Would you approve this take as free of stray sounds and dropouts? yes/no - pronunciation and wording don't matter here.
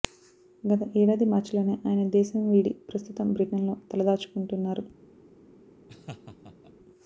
no